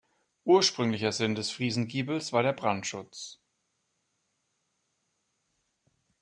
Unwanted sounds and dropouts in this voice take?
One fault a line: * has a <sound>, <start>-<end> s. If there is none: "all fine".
all fine